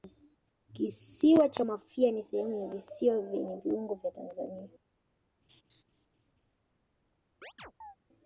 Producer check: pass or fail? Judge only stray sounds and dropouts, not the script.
fail